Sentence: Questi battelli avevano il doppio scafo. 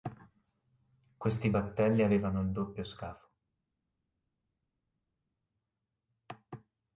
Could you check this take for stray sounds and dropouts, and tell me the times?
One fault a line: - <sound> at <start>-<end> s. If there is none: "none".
none